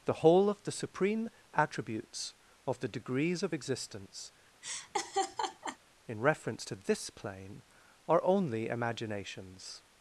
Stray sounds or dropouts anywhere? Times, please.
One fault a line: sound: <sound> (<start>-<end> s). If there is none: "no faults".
sound: laugh (4.6-5.8 s)